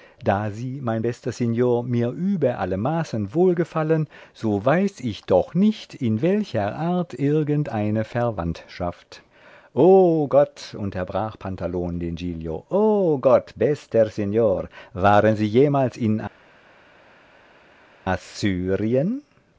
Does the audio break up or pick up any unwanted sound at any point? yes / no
no